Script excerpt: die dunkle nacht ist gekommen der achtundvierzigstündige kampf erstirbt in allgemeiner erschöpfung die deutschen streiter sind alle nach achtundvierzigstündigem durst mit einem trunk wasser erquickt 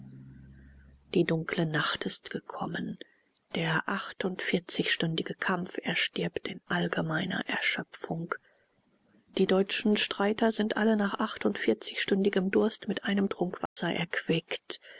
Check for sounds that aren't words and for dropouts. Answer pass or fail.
fail